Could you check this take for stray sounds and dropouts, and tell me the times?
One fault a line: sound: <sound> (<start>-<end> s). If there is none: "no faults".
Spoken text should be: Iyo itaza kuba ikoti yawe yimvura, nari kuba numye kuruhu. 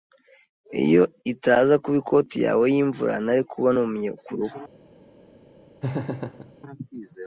sound: laugh (5.8-6.5 s)